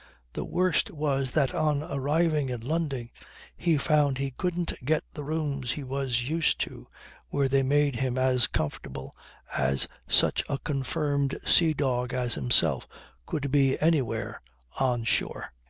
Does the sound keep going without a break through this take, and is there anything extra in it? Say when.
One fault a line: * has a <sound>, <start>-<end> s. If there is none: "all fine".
all fine